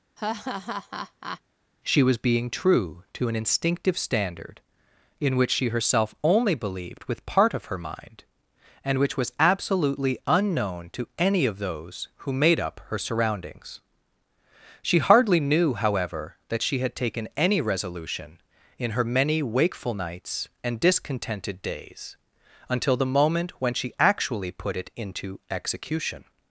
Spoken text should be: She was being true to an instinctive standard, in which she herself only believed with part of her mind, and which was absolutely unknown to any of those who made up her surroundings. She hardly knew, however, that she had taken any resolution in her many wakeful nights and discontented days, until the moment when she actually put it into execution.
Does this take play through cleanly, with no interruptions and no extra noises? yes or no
no